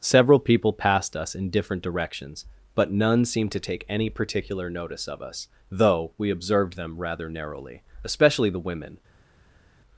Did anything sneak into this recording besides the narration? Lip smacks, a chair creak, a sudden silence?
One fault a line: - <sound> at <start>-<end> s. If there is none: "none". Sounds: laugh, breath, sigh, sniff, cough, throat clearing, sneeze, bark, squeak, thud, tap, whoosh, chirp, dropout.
none